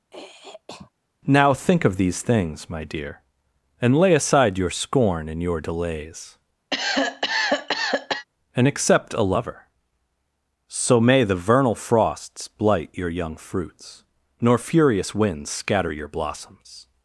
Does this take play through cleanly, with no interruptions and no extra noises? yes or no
no